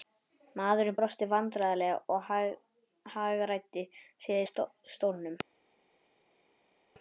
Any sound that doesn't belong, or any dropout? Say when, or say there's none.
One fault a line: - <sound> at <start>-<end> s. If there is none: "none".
none